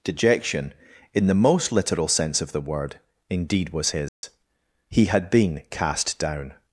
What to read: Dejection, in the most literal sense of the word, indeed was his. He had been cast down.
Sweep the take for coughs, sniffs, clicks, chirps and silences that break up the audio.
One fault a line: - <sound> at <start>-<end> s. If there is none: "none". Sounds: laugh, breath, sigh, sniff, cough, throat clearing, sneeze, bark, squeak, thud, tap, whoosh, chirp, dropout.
- dropout at 4.1-4.2 s